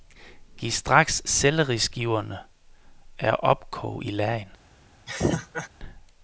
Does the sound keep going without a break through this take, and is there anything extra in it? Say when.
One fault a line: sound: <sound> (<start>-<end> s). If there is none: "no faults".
sound: laugh (5.1-5.7 s)